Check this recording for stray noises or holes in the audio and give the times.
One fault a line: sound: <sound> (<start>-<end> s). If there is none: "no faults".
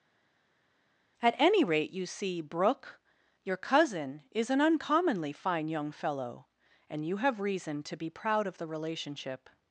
no faults